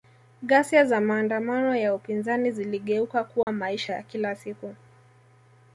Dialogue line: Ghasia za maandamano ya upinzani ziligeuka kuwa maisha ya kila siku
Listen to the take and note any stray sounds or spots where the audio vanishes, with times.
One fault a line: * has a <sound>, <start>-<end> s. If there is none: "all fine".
* has a dropout, 3.4-3.5 s